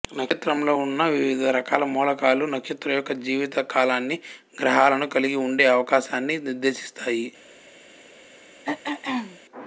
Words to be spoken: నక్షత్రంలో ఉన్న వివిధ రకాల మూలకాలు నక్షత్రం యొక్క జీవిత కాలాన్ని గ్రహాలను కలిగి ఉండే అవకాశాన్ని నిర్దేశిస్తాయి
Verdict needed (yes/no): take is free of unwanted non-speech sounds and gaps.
no